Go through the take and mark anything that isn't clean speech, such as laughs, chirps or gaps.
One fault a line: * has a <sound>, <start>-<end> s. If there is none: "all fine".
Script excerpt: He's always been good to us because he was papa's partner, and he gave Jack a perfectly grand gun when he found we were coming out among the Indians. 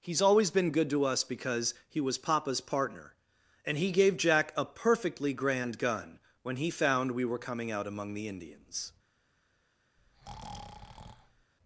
* has a breath, 10.0-11.5 s